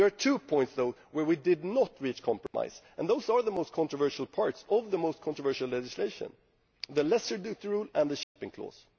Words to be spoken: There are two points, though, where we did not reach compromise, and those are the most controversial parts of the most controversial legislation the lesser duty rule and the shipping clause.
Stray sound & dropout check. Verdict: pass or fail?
fail